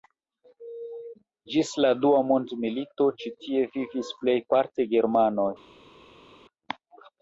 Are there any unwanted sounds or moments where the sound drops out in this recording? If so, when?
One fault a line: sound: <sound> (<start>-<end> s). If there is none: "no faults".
no faults